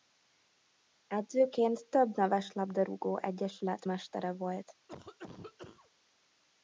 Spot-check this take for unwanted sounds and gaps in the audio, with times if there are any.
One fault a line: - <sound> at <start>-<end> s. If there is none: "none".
- cough at 4.9-5.9 s